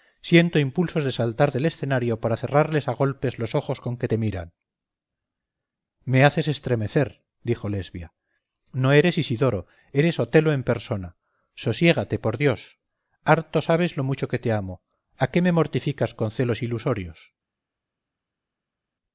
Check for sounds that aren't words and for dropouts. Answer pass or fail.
pass